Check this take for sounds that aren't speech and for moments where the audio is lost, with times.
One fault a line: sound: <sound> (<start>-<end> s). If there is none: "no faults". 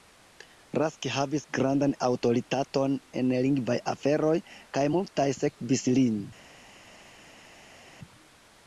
no faults